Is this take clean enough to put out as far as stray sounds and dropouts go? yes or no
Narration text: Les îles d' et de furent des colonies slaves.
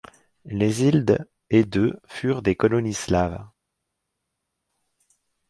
yes